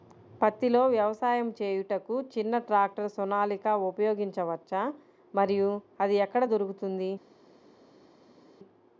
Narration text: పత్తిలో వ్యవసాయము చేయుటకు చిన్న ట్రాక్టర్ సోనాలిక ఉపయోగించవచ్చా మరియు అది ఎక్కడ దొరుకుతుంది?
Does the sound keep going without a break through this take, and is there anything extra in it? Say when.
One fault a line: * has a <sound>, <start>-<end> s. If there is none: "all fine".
all fine